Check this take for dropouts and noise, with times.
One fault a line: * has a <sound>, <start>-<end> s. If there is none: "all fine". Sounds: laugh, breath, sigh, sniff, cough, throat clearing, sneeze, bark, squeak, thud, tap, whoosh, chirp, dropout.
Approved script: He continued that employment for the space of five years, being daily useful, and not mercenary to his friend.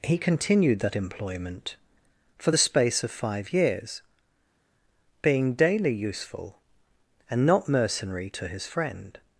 all fine